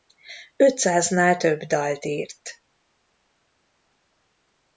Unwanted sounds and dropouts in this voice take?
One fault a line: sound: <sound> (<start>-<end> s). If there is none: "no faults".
no faults